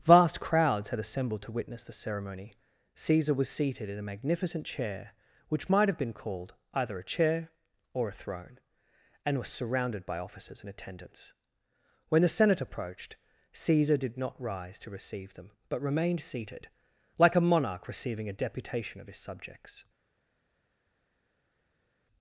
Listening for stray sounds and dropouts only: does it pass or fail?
pass